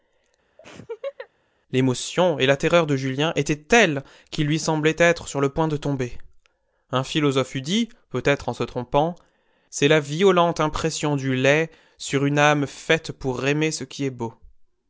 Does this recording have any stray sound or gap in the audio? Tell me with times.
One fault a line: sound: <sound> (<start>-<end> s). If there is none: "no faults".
sound: laugh (0.6-1.3 s)